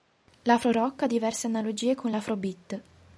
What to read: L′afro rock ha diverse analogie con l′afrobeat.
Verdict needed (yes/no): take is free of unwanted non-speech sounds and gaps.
yes